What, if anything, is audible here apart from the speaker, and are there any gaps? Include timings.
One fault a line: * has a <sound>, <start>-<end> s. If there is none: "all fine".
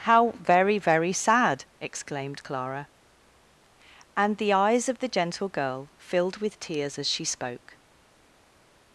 all fine